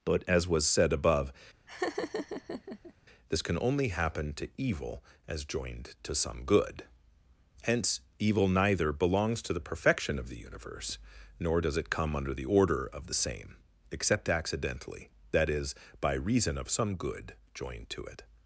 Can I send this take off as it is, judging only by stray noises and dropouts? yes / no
no